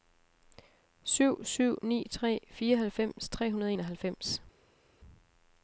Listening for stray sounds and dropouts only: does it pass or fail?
pass